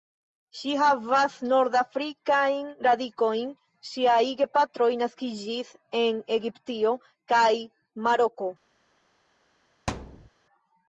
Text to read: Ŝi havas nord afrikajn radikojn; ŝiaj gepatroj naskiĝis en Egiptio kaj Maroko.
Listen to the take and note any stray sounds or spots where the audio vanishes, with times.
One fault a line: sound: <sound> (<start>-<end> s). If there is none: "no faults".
sound: thud (9.9-10.3 s)